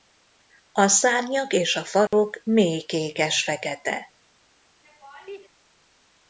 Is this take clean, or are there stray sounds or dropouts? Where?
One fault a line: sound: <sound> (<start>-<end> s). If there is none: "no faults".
sound: dropout (2.1-2.1 s)
sound: laugh (4.8-5.5 s)